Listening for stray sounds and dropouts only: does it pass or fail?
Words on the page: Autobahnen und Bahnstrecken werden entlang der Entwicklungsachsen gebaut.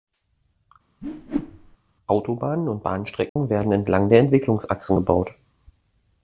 fail